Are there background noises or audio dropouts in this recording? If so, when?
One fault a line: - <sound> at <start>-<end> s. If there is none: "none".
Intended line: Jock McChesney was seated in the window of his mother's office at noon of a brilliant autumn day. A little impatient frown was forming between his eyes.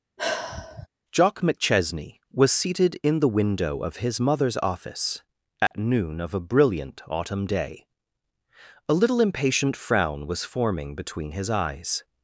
- sigh at 0.2-0.9 s
- dropout at 5.7-5.7 s